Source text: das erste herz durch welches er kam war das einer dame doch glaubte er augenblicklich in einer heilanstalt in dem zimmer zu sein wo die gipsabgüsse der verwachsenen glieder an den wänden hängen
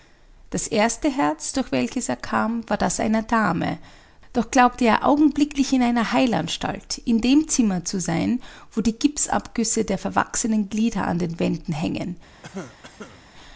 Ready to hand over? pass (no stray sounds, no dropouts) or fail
fail